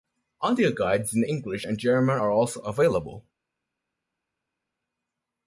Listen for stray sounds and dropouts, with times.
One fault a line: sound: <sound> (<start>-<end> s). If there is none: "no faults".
no faults